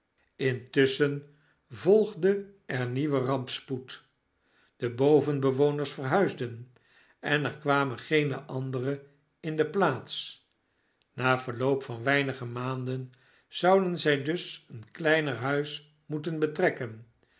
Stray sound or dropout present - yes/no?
no